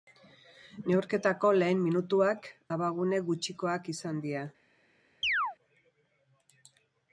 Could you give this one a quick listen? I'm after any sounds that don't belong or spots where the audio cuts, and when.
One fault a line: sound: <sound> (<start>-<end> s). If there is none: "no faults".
sound: chirp (5.2-5.6 s)